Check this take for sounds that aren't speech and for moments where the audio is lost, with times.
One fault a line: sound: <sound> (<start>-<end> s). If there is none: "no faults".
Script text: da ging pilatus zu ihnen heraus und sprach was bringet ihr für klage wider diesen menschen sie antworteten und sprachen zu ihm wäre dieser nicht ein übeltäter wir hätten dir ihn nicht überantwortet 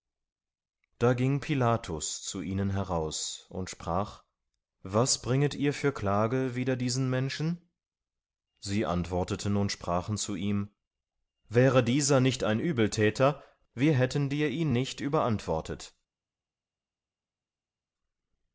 no faults